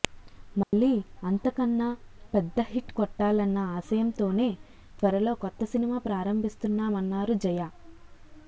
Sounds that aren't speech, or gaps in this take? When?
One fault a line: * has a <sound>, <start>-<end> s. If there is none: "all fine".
* has a dropout, 0.6-0.7 s